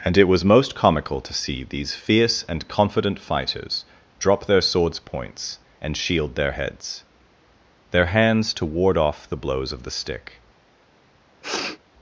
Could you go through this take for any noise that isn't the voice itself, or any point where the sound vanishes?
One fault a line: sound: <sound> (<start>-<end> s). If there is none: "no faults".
sound: sniff (11.4-11.8 s)